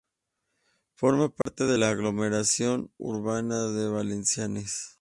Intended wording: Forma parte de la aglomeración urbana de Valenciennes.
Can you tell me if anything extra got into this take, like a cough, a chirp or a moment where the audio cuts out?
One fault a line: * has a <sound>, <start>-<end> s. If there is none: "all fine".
* has a dropout, 1.4-1.5 s